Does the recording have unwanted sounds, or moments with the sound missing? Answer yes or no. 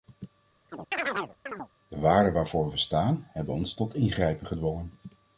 yes